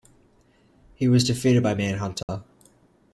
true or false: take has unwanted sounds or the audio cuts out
true